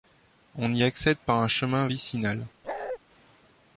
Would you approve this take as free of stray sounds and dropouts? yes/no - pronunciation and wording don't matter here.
no